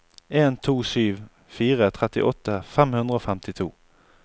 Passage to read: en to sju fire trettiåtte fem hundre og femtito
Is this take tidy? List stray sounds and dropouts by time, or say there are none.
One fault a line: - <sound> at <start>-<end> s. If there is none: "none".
none